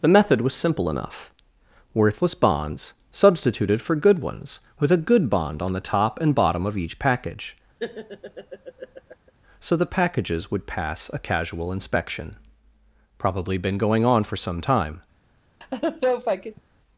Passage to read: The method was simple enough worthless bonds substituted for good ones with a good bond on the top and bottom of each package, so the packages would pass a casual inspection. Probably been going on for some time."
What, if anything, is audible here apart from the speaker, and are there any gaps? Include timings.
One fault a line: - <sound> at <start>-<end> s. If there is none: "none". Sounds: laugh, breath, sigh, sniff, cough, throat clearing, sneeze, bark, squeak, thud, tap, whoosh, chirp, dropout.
- laugh at 7.8-9.3 s
- laugh at 15.6-16.6 s